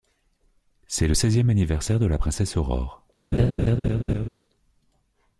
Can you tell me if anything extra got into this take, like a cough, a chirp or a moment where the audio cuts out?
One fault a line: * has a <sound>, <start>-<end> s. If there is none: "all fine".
* has a laugh, 3.3-4.3 s